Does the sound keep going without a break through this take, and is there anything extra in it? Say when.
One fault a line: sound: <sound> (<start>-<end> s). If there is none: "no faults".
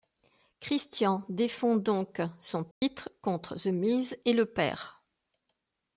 sound: dropout (2.7-2.8 s)